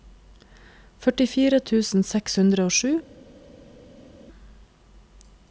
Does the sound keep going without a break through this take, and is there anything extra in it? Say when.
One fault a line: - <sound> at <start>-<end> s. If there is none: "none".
none